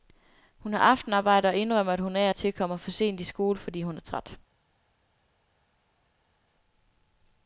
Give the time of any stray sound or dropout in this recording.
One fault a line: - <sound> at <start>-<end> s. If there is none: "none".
none